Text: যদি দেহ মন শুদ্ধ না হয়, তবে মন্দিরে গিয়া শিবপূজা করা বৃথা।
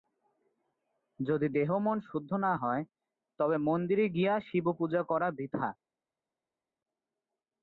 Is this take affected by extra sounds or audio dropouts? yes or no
no